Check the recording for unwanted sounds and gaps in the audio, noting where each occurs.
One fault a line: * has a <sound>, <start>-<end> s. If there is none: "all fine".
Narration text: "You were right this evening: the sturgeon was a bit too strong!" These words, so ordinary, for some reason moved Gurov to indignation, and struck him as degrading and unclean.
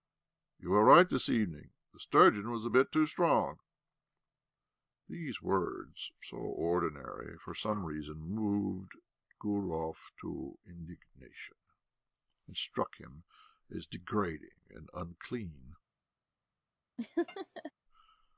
* has a laugh, 17.0-17.7 s